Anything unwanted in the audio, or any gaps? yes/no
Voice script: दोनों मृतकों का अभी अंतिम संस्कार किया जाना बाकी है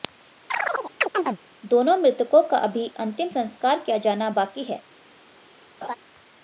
yes